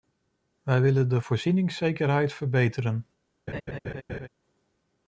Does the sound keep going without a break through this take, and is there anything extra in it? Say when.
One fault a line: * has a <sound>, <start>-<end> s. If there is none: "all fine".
* has a laugh, 3.5-4.3 s